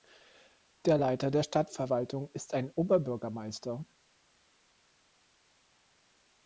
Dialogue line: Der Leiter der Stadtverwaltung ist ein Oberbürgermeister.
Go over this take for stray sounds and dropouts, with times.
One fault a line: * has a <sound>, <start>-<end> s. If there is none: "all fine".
all fine